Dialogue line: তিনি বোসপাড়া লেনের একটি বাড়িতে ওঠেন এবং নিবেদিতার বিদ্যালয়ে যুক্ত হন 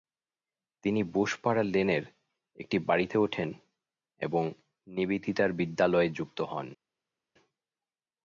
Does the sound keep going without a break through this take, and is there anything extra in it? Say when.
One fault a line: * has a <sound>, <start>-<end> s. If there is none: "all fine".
all fine